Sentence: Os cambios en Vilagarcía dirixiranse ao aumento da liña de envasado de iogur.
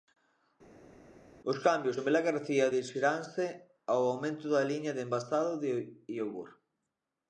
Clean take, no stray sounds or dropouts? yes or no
yes